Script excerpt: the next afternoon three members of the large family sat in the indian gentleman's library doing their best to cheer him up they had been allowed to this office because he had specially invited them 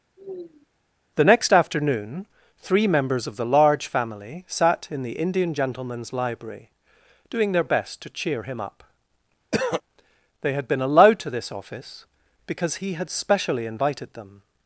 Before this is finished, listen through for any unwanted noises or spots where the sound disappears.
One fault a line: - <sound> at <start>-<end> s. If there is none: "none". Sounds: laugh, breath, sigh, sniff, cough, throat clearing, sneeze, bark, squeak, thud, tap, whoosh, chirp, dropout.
- sigh at 0.2-0.7 s
- throat clearing at 9.5-9.8 s